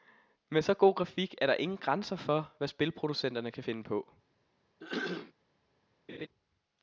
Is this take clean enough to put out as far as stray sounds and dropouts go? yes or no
no